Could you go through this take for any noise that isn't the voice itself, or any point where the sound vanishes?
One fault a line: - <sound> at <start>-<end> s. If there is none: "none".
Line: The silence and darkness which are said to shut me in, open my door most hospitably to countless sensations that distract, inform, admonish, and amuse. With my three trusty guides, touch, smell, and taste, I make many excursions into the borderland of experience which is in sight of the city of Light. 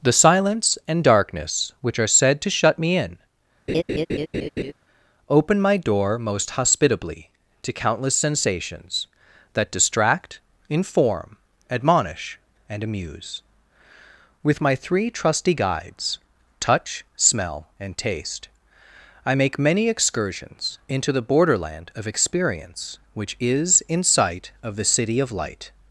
- laugh at 3.7-4.7 s